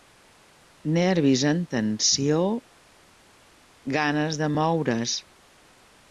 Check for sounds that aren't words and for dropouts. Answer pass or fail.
pass